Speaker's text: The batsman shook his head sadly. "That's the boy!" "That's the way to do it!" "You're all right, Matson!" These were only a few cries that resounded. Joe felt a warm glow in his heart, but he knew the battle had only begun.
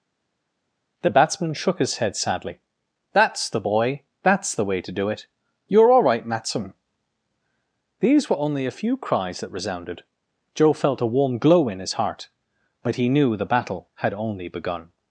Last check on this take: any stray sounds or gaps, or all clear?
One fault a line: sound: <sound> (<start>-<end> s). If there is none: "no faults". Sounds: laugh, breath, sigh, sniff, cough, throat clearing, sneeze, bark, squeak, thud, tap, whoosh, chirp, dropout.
no faults